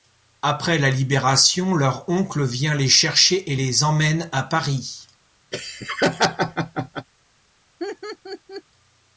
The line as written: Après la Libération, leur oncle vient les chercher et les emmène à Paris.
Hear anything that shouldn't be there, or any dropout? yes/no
yes